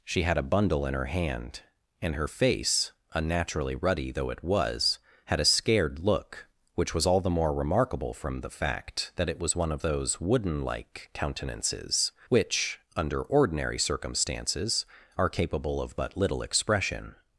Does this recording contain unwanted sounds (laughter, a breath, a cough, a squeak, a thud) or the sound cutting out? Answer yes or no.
no